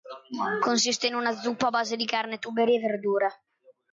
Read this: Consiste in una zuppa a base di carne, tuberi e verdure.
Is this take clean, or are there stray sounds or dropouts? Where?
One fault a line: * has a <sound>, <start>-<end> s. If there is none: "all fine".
all fine